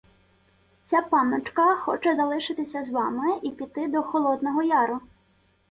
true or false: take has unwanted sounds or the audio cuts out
false